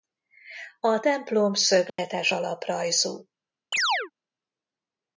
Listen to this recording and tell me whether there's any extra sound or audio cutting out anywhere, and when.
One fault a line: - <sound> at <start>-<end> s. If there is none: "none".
- dropout at 1.9-2.0 s
- chirp at 3.7-4.1 s